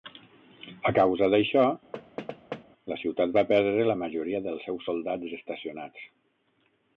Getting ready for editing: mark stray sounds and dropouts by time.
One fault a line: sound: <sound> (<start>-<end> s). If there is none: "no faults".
sound: thud (1.9-2.7 s)